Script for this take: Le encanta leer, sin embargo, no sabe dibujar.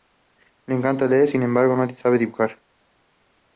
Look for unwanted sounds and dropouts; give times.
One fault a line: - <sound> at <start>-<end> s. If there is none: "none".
none